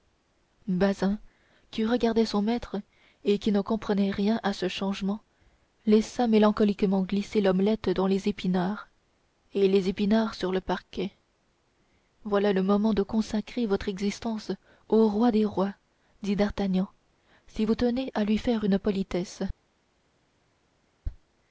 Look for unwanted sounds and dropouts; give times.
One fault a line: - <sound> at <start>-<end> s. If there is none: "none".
none